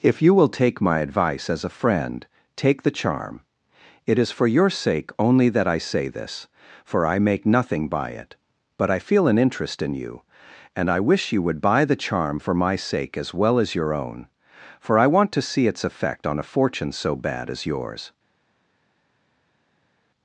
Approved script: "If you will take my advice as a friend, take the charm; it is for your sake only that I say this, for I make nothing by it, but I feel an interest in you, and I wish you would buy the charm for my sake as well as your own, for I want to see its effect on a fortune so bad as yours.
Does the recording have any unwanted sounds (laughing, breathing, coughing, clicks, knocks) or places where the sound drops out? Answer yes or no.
no